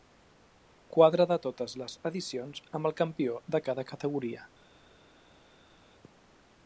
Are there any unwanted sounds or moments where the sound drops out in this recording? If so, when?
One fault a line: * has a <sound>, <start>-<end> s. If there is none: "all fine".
all fine